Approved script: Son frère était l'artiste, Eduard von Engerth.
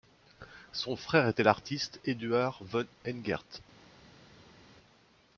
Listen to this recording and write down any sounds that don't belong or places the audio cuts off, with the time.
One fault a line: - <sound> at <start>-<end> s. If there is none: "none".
none